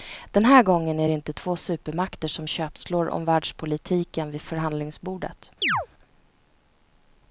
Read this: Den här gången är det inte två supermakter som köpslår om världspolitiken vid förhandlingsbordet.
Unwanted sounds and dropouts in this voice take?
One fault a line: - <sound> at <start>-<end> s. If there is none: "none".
- chirp at 5.6-5.9 s